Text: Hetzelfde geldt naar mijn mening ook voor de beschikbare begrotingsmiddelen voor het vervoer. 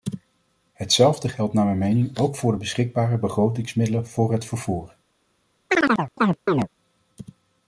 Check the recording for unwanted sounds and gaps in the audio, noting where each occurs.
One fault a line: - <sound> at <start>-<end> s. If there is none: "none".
- chirp at 5.7-6.7 s